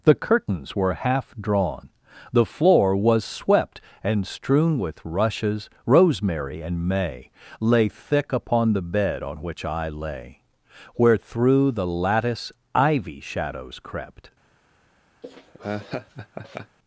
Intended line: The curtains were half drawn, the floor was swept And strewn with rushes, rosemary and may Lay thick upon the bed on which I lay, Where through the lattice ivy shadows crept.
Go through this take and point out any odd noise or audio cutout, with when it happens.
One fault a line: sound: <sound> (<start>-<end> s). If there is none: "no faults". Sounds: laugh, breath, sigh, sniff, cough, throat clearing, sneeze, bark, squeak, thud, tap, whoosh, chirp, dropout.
sound: laugh (15.2-16.8 s)